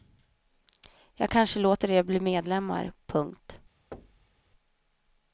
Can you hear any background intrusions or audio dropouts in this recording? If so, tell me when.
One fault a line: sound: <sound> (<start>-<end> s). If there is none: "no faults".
sound: thud (3.9-4.4 s)